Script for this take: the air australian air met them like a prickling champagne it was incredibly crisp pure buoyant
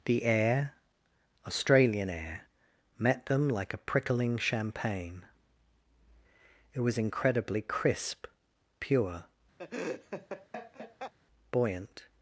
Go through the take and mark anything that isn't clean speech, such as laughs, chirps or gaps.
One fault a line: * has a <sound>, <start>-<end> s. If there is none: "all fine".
* has a laugh, 9.6-11.1 s